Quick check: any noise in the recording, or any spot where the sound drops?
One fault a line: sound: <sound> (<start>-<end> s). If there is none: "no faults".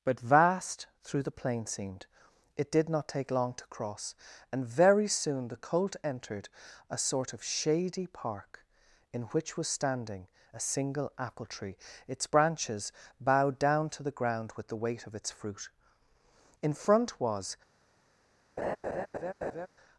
sound: laugh (18.6-19.7 s)